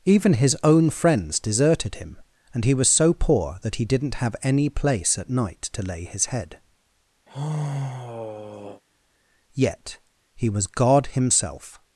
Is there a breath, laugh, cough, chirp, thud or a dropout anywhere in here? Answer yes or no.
yes